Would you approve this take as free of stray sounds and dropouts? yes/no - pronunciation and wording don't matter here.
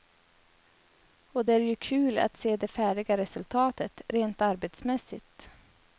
yes